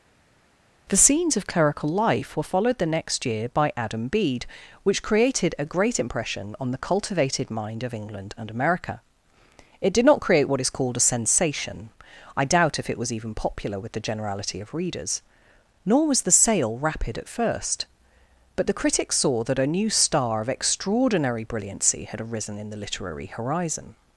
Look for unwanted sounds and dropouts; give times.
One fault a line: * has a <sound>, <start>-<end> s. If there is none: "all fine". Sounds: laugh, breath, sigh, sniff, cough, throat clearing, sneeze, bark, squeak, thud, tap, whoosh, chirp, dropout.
all fine